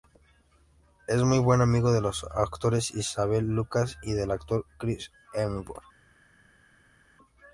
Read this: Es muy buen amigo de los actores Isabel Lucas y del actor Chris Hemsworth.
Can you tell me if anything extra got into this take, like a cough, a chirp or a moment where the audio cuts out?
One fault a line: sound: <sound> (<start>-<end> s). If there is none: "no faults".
no faults